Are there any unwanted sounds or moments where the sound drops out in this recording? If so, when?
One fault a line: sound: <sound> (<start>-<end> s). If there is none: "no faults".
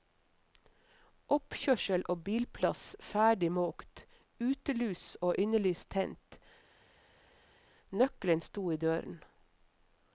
no faults